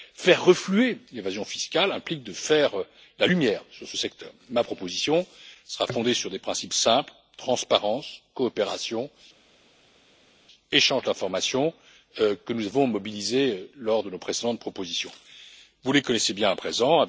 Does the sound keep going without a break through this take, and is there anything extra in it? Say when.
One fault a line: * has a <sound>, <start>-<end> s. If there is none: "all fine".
all fine